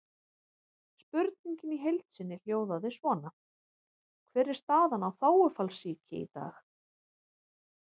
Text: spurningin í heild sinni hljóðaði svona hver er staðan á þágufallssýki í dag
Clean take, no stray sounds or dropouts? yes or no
yes